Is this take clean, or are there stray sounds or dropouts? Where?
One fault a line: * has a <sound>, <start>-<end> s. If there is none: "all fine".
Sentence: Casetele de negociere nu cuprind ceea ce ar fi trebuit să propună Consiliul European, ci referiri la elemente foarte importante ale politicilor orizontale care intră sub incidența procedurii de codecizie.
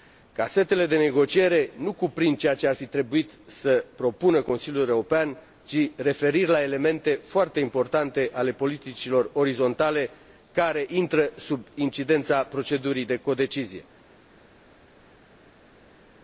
all fine